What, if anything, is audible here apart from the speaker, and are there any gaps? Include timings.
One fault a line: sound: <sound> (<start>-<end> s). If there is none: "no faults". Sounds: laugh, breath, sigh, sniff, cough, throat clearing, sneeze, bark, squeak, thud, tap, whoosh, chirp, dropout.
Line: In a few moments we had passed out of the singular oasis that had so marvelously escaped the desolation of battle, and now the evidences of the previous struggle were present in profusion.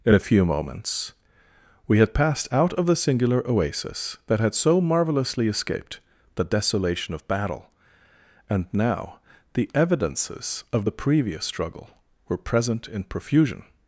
no faults